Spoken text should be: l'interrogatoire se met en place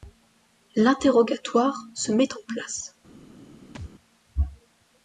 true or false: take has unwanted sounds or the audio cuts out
true